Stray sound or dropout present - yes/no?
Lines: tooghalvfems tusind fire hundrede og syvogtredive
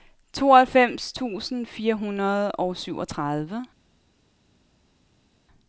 no